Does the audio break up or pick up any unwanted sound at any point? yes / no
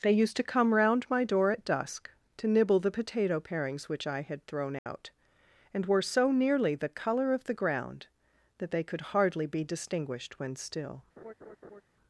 yes